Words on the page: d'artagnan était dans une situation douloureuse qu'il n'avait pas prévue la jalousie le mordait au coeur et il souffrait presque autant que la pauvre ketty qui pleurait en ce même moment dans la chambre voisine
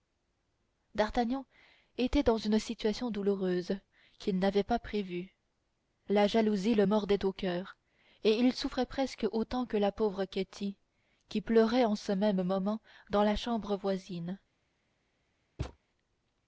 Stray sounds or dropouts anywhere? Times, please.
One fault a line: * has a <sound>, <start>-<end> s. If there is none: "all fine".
* has a thud, 15.6-15.8 s